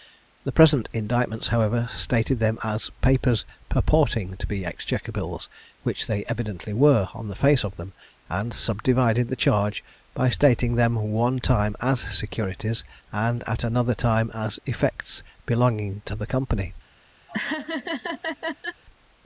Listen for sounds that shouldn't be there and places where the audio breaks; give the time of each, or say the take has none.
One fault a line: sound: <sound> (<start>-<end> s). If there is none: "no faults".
sound: laugh (17.3-18.8 s)